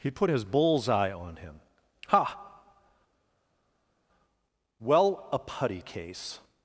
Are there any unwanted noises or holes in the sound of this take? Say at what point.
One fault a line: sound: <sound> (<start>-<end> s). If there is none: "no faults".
no faults